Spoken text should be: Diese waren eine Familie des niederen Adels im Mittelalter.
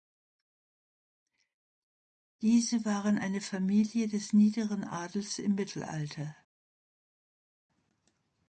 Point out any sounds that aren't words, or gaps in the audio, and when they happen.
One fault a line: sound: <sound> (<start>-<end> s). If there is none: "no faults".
no faults